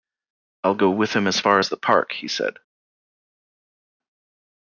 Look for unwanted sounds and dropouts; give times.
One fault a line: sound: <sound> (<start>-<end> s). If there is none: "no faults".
no faults